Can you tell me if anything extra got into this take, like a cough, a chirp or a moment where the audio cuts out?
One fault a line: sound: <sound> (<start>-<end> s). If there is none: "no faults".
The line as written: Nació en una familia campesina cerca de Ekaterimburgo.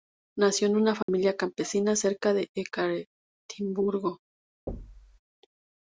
sound: dropout (1.0-1.1 s)
sound: thud (4.7-5.2 s)